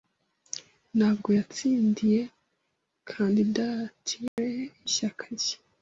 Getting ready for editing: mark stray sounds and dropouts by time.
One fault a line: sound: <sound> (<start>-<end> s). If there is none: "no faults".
sound: dropout (4.3-4.4 s)